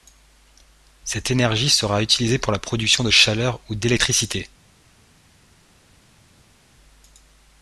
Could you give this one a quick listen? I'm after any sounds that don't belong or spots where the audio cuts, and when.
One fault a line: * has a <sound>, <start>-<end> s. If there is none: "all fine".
all fine